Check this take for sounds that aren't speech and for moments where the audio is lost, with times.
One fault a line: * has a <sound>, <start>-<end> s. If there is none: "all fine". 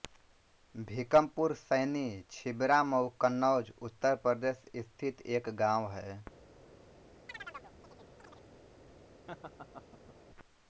* has a chirp, 7.3-8.5 s
* has a laugh, 9.3-10.2 s